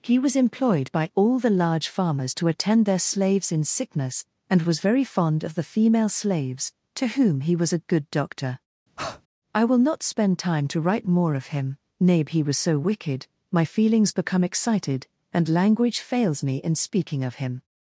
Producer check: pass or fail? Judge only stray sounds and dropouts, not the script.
fail